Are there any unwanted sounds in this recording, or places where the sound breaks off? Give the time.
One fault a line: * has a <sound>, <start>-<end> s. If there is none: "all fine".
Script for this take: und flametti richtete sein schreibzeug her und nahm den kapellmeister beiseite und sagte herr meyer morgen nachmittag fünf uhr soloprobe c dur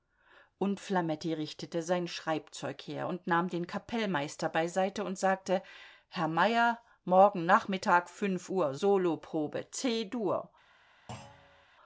* has a thud, 11.1-11.7 s